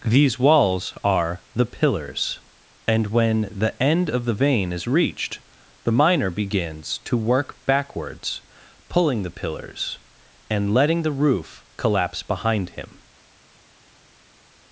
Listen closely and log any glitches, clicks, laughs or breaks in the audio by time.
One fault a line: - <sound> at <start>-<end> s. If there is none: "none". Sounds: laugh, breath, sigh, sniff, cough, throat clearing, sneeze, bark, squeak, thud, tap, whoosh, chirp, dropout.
none